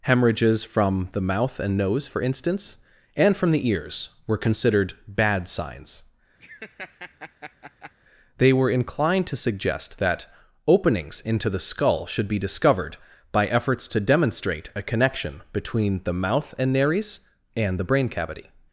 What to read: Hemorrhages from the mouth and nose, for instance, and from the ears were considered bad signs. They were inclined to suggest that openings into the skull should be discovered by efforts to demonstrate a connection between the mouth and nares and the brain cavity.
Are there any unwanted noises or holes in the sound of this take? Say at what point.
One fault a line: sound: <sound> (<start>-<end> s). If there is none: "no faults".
sound: laugh (6.4-7.9 s)